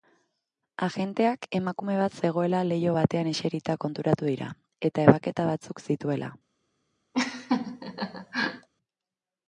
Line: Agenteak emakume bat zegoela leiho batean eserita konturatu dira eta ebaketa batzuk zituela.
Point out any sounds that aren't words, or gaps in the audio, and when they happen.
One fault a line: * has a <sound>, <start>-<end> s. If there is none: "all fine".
* has a laugh, 7.1-8.7 s